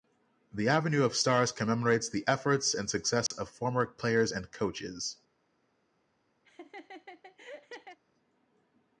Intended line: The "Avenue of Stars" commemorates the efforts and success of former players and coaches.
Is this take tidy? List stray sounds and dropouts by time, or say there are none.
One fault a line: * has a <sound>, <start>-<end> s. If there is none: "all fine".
* has a dropout, 3.3-3.3 s
* has a laugh, 6.4-8.0 s